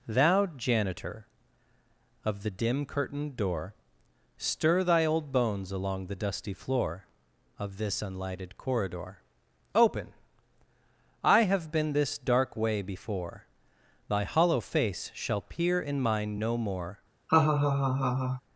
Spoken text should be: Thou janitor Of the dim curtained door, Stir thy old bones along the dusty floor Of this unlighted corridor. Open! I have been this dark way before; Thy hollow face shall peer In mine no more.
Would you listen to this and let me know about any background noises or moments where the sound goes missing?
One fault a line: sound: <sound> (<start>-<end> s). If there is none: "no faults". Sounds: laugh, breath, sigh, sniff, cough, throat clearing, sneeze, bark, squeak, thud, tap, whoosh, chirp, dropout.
sound: laugh (17.3-18.4 s)